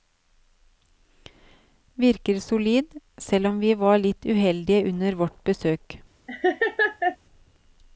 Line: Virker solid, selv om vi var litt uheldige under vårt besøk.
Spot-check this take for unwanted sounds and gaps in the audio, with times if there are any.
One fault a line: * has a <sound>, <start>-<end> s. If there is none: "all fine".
* has a laugh, 6.3-7.2 s